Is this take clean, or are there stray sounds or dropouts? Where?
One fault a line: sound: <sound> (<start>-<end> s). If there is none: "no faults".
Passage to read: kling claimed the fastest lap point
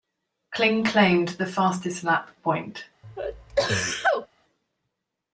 sound: sneeze (3.0-4.3 s)